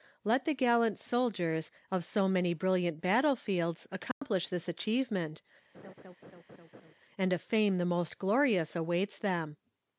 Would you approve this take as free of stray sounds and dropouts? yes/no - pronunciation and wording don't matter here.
no